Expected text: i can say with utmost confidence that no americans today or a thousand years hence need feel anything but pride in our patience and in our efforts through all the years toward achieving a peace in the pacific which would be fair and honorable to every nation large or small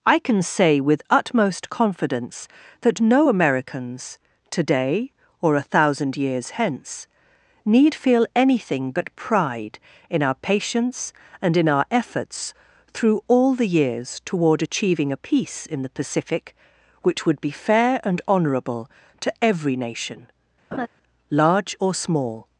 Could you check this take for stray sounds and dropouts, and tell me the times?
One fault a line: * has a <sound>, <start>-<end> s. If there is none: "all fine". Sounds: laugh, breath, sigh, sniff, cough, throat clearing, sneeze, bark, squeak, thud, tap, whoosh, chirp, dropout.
* has a laugh, 20.7-20.9 s